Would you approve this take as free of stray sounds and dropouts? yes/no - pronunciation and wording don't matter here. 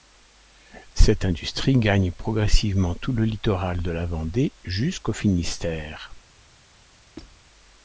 no